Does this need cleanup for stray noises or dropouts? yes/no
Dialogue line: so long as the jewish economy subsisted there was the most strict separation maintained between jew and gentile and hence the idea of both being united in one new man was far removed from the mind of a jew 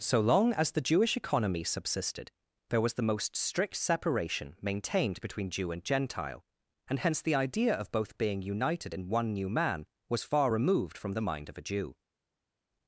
no